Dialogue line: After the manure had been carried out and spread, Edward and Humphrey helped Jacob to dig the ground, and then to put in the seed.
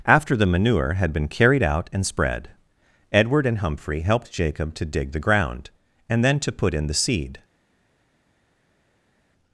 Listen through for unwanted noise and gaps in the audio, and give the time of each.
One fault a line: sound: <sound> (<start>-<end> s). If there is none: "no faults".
no faults